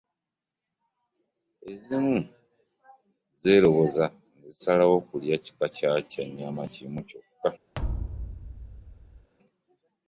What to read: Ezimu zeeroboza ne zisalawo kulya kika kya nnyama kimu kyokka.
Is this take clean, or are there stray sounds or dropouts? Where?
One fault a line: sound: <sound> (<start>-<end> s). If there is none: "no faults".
sound: thud (7.7-9.3 s)